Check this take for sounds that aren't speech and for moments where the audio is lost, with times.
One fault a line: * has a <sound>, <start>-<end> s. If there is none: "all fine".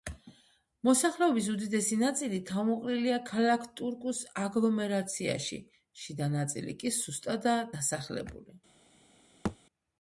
* has a thud, 9.4-9.6 s